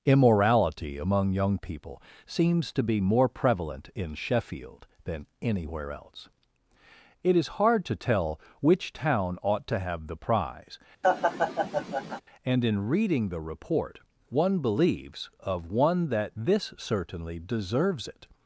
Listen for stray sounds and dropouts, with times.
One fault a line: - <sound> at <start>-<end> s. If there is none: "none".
- laugh at 11.0-12.2 s